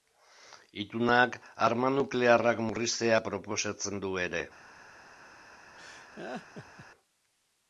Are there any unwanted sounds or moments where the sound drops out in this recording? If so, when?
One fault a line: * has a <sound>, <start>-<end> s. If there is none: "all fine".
* has a laugh, 5.8-6.9 s